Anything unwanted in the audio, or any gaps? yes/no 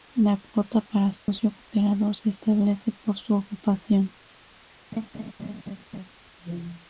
yes